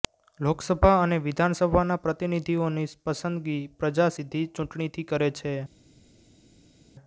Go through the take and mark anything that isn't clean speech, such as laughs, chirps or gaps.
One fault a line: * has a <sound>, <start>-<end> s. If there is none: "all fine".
all fine